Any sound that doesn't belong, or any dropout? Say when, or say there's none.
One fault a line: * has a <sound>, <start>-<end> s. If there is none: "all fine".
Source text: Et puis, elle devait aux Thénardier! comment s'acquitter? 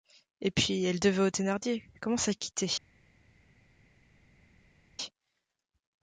all fine